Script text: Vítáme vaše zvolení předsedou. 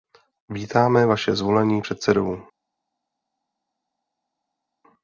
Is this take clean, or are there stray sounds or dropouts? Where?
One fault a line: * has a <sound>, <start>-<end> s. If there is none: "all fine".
all fine